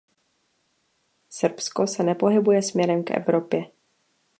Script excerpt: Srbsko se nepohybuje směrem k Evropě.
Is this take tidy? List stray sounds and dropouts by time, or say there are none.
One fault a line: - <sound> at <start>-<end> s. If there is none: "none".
none